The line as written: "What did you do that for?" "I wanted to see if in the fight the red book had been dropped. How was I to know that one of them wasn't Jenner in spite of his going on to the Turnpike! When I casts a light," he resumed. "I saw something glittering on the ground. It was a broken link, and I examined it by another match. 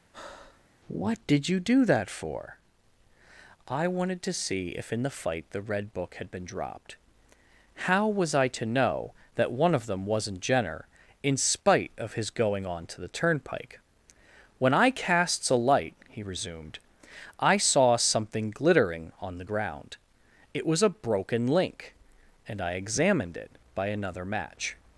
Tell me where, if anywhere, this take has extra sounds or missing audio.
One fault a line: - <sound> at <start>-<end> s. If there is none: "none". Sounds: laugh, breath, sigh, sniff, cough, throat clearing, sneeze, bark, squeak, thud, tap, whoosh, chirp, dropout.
- breath at 0.1-0.7 s